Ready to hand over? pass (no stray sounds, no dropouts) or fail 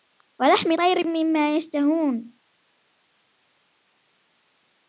pass